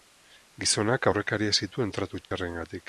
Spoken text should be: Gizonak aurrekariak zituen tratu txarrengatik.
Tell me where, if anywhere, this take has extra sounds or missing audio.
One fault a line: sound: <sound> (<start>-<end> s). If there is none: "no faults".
sound: dropout (2.2-2.3 s)